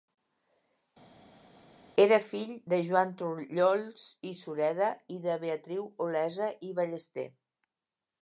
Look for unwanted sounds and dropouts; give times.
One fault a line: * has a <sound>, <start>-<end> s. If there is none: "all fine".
all fine